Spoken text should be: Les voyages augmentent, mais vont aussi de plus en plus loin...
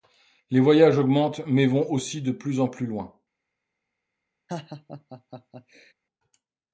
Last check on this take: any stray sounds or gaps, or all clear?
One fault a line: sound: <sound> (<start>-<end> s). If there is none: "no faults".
sound: laugh (4.5-5.9 s)